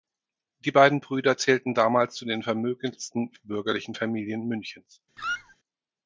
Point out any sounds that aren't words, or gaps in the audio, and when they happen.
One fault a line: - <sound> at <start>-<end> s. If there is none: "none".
- squeak at 5.2-5.6 s